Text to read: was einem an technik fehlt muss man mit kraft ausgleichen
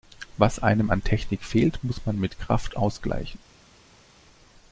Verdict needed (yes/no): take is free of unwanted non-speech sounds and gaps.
yes